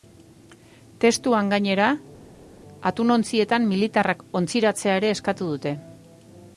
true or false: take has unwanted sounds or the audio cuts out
false